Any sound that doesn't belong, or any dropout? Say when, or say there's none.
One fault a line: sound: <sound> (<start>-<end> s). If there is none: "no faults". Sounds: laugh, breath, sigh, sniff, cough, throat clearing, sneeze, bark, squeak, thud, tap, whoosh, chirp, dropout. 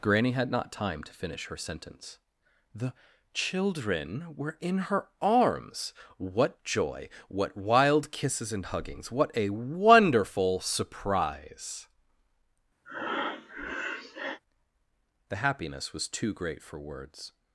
sound: breath (12.9-14.4 s)